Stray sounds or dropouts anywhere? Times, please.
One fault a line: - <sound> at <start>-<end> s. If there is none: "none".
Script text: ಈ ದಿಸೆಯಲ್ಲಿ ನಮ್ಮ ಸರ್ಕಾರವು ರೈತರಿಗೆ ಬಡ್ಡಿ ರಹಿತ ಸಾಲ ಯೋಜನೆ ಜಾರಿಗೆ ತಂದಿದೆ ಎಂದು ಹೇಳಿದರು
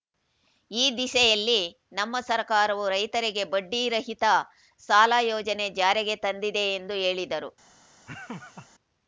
- laugh at 8.1-8.7 s